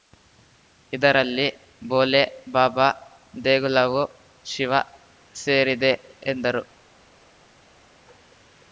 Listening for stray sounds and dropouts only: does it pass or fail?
pass